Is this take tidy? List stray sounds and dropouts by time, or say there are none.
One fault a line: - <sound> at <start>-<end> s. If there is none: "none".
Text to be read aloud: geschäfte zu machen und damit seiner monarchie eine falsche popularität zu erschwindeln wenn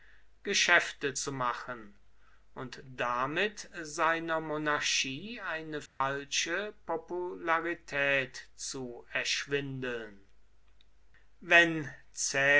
- dropout at 5.9-6.0 s